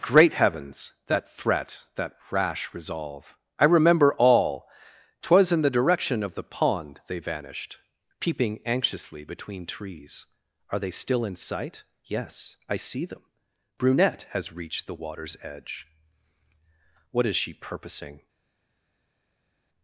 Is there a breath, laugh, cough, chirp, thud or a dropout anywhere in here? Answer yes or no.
no